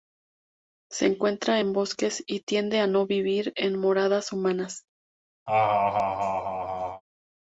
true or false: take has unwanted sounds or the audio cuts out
true